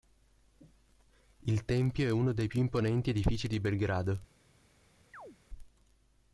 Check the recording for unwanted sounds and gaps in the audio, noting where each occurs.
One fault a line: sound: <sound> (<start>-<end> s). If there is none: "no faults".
sound: chirp (5.1-5.4 s)